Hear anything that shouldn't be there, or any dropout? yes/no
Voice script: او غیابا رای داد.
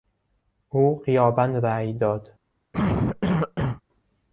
yes